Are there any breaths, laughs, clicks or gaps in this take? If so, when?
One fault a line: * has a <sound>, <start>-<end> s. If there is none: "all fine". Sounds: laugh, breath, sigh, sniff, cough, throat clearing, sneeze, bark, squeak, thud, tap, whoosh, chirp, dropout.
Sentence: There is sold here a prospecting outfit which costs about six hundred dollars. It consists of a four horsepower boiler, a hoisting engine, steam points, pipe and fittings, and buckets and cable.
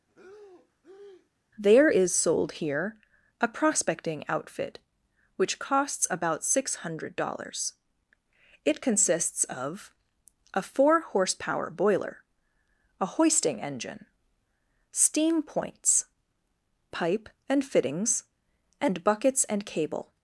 * has a breath, 0.1-1.3 s